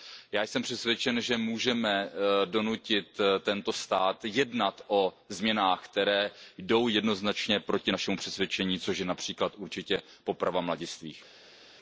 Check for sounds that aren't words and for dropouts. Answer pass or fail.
pass